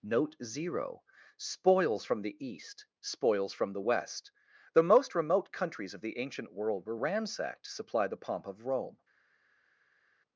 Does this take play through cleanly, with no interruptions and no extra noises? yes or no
yes